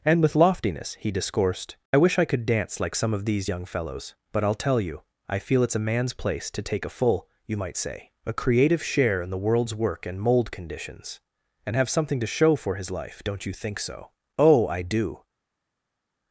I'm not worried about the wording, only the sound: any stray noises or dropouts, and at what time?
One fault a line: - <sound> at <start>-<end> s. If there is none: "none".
none